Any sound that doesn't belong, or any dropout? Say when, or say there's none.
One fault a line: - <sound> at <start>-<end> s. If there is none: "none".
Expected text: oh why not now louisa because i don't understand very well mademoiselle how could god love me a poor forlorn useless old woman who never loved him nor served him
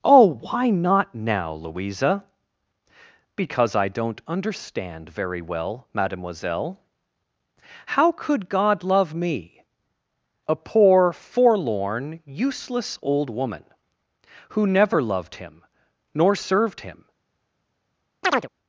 - chirp at 18.2-18.5 s